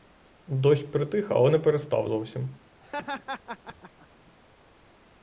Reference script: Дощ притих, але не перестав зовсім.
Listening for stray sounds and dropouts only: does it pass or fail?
fail